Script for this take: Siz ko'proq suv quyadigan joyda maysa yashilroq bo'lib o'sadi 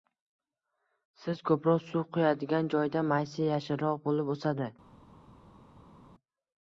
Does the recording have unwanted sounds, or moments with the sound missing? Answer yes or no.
no